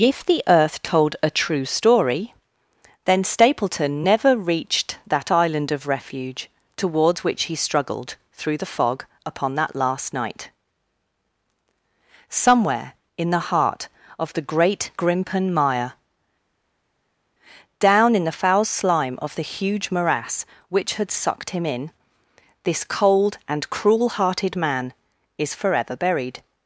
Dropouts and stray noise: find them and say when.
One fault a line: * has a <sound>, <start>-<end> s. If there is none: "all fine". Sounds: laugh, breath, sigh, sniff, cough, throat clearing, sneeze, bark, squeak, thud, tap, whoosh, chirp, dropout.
all fine